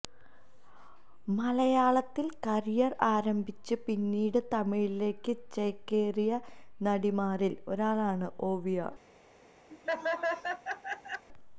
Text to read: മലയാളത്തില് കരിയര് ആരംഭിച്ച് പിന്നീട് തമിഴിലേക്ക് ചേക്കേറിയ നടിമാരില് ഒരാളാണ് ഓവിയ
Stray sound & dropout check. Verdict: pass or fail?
fail